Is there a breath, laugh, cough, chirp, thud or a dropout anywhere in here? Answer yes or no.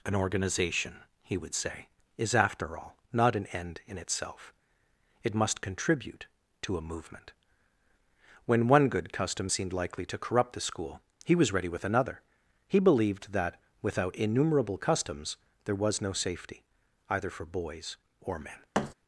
yes